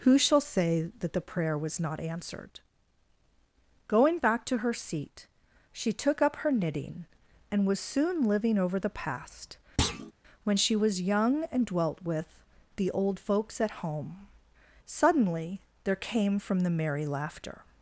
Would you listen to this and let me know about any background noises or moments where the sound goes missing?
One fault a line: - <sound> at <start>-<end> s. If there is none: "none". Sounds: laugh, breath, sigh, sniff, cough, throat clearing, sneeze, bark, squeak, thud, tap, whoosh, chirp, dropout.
- thud at 9.8-10.1 s